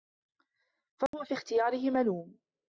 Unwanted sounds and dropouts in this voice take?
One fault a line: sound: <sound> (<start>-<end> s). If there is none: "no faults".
sound: dropout (1.1-1.1 s)